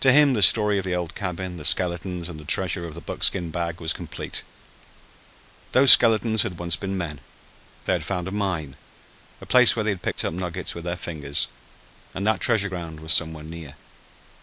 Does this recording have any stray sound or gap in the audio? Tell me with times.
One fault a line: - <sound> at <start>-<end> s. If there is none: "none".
- dropout at 10.1-10.2 s